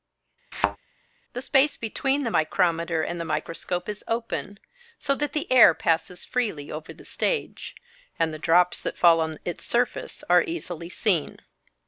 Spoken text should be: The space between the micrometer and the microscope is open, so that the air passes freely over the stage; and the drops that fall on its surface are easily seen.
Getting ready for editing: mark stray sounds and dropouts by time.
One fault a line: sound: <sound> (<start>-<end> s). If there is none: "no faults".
sound: thud (0.5-0.8 s)